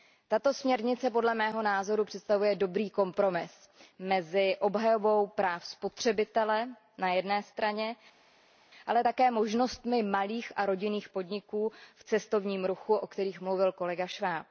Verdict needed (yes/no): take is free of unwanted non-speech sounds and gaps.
yes